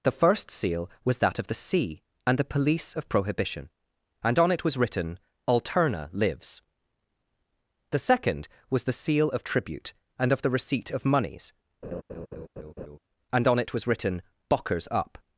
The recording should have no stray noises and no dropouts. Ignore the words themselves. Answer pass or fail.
fail